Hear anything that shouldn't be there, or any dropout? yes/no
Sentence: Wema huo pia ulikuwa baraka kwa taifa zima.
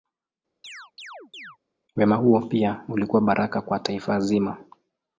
yes